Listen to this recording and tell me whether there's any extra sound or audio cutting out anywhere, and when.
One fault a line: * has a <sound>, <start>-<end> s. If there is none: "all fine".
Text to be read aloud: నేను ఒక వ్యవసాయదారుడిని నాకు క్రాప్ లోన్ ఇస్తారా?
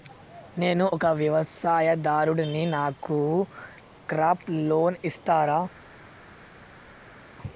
all fine